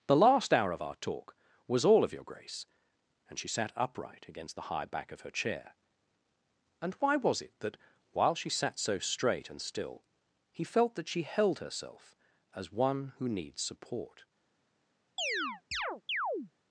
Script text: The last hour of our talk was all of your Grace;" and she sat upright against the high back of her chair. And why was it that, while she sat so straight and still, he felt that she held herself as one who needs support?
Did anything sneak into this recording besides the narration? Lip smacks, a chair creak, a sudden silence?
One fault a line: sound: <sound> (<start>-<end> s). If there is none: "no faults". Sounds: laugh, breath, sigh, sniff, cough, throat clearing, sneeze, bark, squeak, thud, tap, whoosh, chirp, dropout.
sound: chirp (15.2-16.5 s)